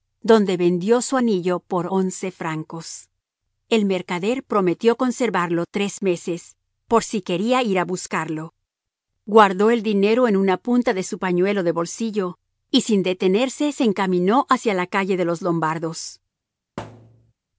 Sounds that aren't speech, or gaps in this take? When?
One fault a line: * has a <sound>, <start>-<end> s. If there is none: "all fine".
* has a thud, 16.8-17.3 s